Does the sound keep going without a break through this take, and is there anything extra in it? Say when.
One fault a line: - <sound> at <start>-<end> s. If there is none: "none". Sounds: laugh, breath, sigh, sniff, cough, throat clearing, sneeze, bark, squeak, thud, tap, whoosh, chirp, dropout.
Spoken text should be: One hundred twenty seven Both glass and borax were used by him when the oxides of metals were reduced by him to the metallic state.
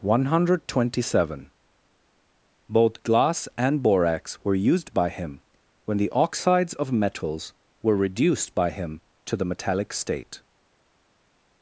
none